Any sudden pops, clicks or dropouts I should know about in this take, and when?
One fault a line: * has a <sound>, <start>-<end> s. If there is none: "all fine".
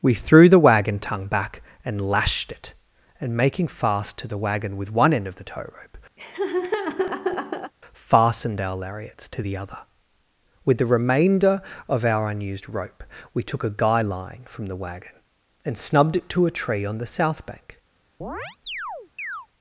* has a laugh, 6.2-7.7 s
* has a chirp, 18.2-19.5 s